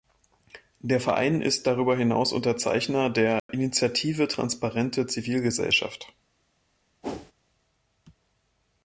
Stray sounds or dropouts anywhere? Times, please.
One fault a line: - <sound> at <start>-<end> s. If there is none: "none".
- dropout at 3.4-3.5 s
- whoosh at 7.0-7.3 s